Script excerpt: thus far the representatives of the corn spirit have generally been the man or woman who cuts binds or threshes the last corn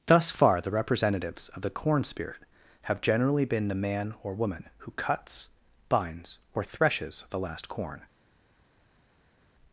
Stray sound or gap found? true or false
false